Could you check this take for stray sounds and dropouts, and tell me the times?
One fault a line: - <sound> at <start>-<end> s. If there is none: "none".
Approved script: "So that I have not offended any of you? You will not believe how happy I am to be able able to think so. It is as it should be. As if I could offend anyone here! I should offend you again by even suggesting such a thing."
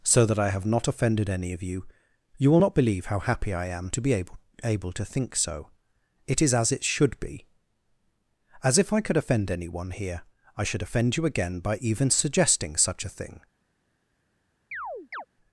- chirp at 14.7-15.3 s